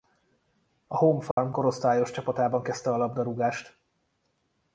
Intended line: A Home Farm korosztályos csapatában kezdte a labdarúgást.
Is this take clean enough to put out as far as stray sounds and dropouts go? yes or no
no